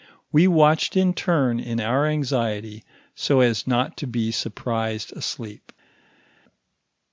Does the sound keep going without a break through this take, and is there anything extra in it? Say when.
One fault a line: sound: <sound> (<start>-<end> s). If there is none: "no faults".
no faults